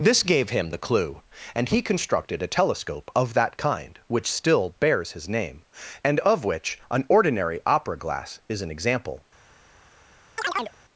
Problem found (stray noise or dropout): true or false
true